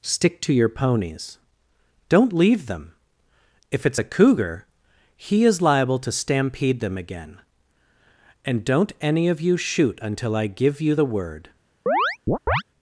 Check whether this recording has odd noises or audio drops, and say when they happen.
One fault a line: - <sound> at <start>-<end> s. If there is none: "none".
- chirp at 11.9-12.6 s